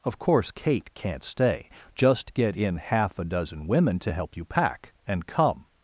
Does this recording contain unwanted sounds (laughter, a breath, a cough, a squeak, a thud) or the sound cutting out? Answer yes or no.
no